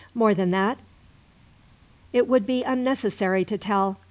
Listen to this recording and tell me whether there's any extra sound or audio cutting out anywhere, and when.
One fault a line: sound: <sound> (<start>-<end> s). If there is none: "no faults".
no faults